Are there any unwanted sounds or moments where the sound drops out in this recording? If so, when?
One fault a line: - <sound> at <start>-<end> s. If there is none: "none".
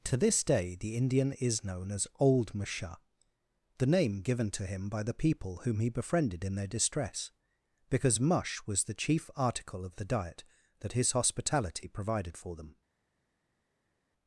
none